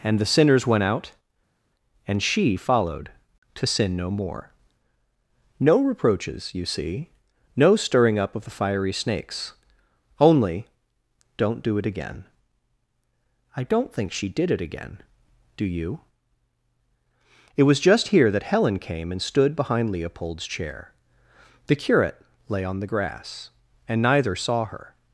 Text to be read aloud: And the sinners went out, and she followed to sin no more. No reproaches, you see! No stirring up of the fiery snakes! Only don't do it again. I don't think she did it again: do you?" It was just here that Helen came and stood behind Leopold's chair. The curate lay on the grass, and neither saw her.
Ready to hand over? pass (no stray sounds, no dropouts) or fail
pass